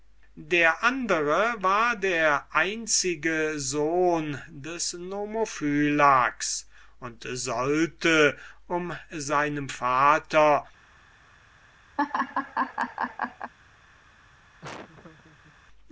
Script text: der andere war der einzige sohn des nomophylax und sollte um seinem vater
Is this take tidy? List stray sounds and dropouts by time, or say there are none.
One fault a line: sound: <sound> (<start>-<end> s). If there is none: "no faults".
sound: laugh (12.0-13.5 s)
sound: laugh (14.6-15.6 s)